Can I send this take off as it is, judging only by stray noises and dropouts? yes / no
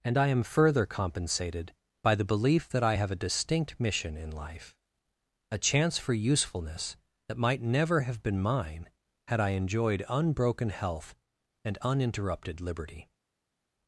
yes